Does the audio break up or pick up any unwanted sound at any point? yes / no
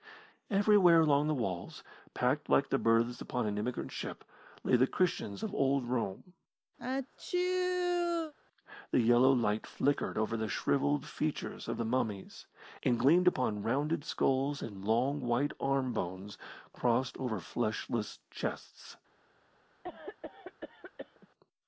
yes